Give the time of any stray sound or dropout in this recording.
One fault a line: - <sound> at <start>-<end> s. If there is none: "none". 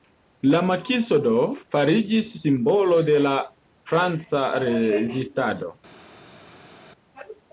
none